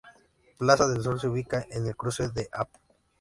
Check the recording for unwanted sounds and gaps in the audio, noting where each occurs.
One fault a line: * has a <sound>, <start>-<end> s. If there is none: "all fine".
all fine